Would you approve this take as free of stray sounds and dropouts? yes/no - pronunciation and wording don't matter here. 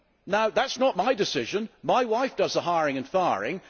yes